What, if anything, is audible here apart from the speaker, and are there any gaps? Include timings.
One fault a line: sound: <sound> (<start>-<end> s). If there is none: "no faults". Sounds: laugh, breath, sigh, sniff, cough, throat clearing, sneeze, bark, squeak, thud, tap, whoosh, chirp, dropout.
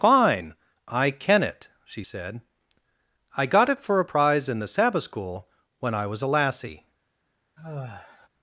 sound: sigh (7.6-8.3 s)